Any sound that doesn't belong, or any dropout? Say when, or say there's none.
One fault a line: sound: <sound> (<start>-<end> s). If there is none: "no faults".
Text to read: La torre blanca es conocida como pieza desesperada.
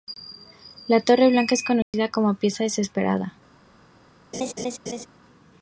sound: dropout (1.8-1.9 s)
sound: laugh (4.3-5.1 s)